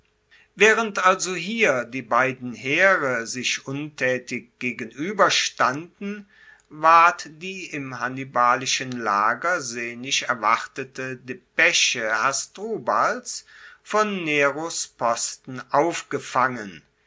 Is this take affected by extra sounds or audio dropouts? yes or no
no